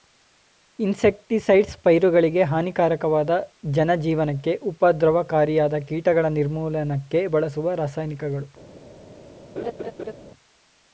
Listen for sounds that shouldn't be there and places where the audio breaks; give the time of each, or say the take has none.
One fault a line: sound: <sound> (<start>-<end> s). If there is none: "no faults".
sound: laugh (9.6-10.1 s)